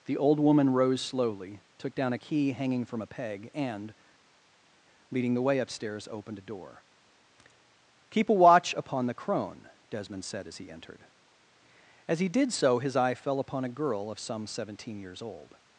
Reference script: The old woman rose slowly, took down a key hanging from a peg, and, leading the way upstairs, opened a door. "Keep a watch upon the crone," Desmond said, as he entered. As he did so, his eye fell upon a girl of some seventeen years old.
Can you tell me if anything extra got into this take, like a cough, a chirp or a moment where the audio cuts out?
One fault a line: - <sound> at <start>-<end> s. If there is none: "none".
none